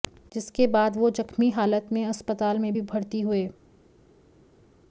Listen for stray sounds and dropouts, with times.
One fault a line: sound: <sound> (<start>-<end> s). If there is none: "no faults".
no faults